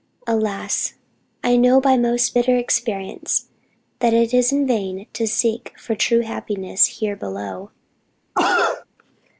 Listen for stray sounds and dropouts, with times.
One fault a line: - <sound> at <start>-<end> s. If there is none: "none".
- cough at 8.4-8.9 s